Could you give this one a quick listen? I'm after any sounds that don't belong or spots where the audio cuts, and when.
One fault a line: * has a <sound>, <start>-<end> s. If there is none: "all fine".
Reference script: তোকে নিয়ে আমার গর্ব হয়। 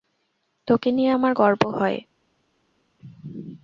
all fine